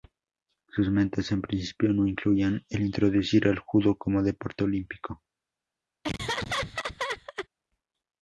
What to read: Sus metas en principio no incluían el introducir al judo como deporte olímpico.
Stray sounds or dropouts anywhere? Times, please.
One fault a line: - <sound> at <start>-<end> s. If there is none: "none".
- laugh at 6.0-7.5 s